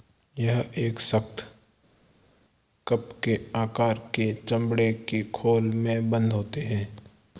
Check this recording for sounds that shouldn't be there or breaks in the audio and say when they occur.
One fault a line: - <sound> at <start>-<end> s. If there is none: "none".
none